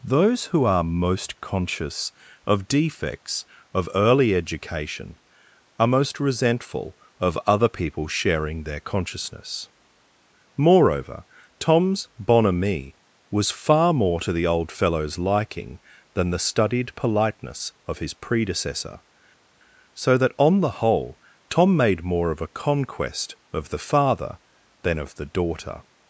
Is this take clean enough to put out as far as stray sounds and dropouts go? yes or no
yes